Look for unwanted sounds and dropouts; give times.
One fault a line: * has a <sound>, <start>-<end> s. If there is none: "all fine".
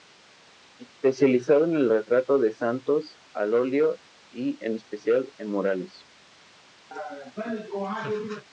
* has a laugh, 6.9-8.4 s